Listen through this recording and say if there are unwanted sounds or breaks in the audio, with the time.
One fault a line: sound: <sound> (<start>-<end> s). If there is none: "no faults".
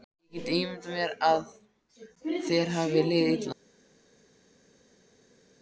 no faults